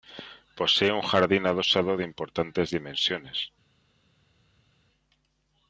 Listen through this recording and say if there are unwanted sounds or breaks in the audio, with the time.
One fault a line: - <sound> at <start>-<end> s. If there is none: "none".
none